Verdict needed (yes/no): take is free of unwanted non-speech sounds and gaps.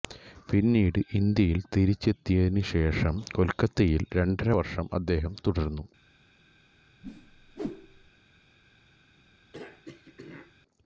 no